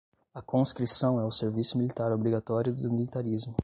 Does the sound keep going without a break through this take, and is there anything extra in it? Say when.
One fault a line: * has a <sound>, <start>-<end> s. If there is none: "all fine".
all fine